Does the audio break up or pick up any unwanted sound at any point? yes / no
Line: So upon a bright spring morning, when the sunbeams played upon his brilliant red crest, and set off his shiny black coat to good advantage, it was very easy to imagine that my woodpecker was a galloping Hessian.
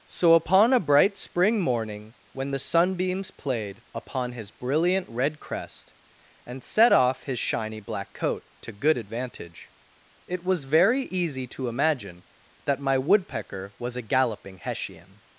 no